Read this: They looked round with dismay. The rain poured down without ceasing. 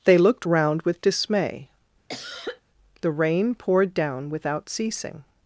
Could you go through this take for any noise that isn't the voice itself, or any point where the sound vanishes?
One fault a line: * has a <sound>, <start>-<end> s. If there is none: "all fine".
* has a cough, 2.1-2.6 s